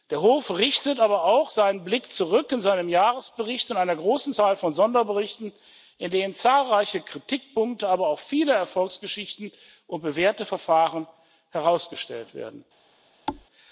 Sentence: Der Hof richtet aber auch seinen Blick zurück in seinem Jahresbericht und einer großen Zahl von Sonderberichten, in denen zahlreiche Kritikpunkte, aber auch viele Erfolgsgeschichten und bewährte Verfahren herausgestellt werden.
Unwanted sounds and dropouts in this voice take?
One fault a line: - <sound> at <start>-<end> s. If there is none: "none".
- thud at 13.3-13.5 s